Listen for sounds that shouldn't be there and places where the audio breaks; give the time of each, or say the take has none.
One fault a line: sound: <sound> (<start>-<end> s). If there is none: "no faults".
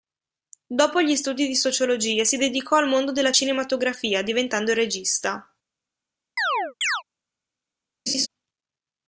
sound: chirp (6.4-7.0 s)
sound: laugh (8.1-8.3 s)